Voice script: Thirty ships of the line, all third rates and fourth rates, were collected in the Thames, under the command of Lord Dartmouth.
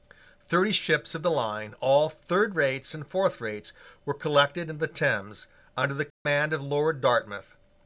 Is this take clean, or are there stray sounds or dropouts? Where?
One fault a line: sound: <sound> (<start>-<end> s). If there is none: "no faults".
sound: dropout (6.1-6.3 s)